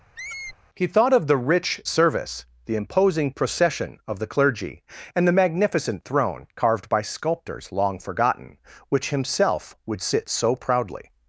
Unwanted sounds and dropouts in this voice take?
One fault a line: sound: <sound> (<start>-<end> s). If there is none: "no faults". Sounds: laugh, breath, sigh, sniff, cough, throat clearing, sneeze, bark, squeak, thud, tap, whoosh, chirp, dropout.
sound: squeak (0.2-0.6 s)